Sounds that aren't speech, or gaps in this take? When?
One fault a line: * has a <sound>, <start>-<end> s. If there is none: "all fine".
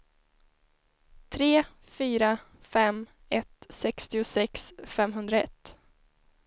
all fine